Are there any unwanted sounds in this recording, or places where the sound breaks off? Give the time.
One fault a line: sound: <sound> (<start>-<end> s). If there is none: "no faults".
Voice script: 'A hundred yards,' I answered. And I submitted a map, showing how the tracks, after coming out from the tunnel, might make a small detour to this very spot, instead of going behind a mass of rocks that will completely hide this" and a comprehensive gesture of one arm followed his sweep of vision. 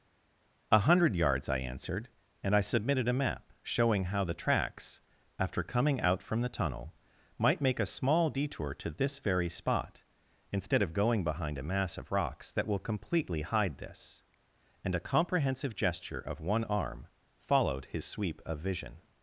no faults